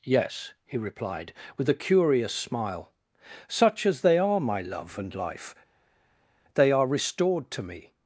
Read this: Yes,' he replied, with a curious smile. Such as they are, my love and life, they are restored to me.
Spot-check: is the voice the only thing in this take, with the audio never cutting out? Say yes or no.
yes